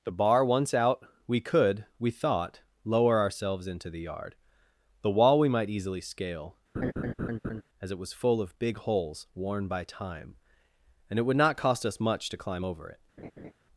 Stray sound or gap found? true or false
true